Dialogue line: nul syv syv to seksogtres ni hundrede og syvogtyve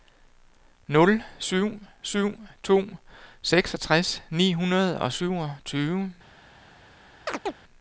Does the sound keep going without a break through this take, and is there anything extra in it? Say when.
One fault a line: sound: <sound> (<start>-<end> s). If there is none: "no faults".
sound: chirp (7.3-7.5 s)